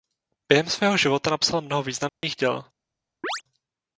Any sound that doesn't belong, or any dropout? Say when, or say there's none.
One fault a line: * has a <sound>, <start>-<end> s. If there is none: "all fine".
* has a dropout, 2.1-2.2 s
* has a chirp, 3.2-3.4 s